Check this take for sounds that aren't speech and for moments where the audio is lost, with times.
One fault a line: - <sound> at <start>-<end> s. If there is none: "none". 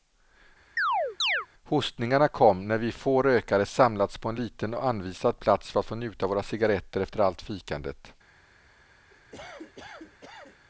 - chirp at 0.8-1.5 s
- cough at 9.1-10.7 s